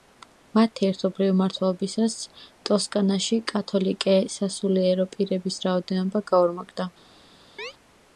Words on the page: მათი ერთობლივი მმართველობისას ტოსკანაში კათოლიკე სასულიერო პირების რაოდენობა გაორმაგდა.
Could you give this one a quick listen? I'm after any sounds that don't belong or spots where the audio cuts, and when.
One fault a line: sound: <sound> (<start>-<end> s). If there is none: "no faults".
sound: chirp (7.6-7.7 s)